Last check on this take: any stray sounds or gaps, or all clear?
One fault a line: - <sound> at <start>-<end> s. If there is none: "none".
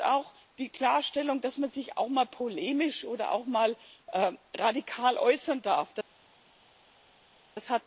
none